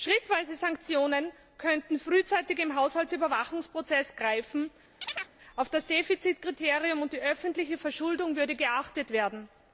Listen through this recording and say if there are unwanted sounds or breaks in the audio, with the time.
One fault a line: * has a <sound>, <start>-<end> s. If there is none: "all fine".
* has a chirp, 5.0-5.3 s